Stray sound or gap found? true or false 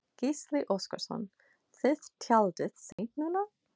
true